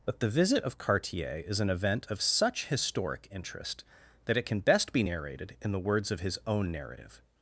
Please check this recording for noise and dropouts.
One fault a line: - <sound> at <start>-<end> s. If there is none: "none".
none